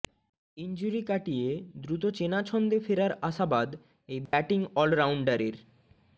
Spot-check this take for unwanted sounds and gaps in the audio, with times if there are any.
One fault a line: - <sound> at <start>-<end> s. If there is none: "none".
- dropout at 4.3-4.3 s